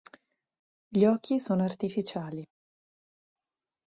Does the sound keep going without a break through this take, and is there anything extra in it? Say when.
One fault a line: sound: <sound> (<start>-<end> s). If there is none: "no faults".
no faults